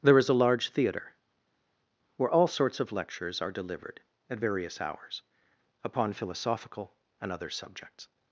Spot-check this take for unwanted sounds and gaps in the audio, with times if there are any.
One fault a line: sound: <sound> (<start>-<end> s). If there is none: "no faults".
no faults